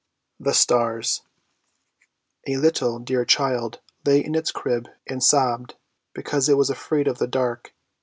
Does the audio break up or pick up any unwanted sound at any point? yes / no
no